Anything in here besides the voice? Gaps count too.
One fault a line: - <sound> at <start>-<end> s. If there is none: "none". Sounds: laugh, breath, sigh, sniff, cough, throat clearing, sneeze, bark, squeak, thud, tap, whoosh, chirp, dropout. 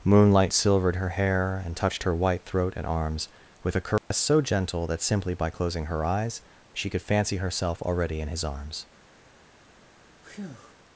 - dropout at 4.0-4.1 s
- breath at 10.2-10.7 s